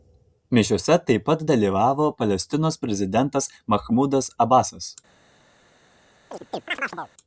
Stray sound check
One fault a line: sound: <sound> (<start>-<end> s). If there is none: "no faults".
sound: chirp (6.3-7.1 s)